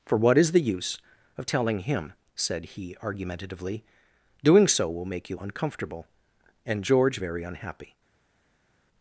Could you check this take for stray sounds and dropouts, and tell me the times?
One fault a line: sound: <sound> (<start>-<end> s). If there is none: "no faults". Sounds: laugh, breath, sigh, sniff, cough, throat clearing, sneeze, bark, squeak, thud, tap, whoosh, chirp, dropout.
no faults